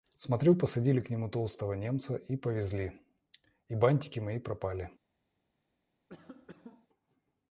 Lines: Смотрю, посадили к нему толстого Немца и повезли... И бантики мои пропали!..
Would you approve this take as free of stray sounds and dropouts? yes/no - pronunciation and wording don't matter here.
no